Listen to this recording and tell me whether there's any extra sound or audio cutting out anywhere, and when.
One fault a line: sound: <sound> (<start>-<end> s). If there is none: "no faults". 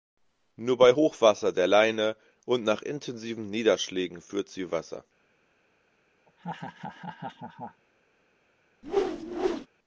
sound: laugh (6.3-7.8 s)
sound: whoosh (8.8-9.7 s)